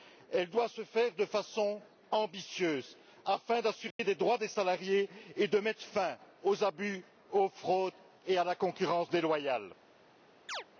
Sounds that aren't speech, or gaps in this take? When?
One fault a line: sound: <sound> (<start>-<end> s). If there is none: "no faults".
sound: dropout (3.9-4.0 s)
sound: chirp (10.5-10.6 s)